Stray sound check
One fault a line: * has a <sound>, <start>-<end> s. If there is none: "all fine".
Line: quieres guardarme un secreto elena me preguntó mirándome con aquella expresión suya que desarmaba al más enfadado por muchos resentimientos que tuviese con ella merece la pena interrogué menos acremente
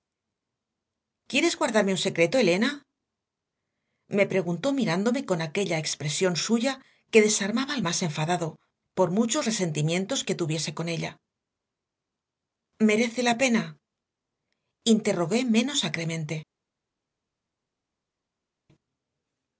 all fine